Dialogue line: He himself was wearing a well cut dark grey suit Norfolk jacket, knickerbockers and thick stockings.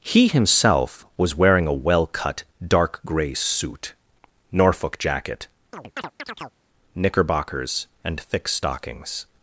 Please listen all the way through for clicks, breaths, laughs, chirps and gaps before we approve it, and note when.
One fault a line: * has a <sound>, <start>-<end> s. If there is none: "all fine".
* has a chirp, 5.7-6.6 s